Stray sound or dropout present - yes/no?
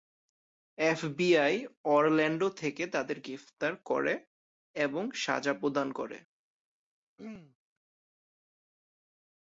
yes